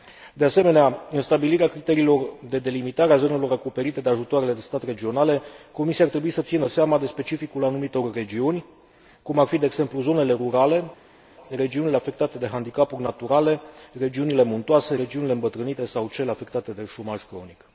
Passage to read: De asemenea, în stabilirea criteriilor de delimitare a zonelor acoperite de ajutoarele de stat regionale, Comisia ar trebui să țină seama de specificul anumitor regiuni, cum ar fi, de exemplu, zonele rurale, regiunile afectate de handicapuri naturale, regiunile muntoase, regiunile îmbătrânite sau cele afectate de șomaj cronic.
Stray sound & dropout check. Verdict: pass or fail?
pass